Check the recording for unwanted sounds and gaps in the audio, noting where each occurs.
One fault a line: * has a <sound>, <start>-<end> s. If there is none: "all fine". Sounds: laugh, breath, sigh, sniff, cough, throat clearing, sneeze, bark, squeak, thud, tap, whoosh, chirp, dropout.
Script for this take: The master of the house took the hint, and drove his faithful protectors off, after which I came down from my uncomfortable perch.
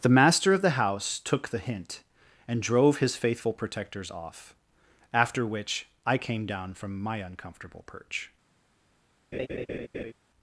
* has a laugh, 9.3-10.1 s